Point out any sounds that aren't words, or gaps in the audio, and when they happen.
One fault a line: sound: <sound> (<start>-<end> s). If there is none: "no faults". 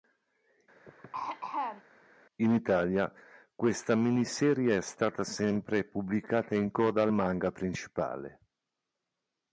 sound: throat clearing (0.9-1.8 s)